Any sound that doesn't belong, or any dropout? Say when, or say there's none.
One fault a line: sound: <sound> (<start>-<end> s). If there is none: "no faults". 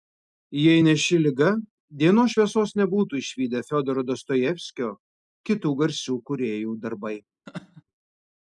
sound: laugh (7.5-7.8 s)